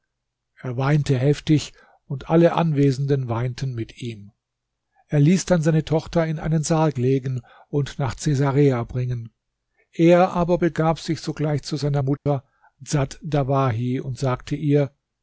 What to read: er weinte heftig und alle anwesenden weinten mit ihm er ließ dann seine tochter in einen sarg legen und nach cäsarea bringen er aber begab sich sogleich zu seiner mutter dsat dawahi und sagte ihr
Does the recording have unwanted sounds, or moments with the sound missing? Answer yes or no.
yes